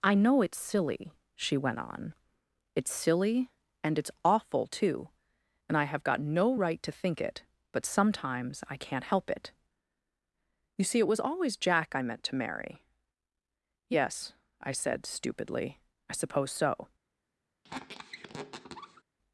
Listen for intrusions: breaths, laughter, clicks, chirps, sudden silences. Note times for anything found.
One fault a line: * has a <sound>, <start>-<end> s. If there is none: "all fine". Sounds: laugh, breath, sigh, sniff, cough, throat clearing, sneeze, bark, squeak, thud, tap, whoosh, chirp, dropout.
* has a squeak, 17.6-19.0 s